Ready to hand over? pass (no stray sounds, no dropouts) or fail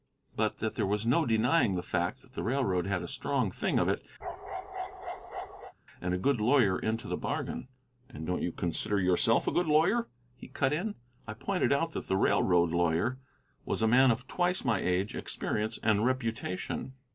fail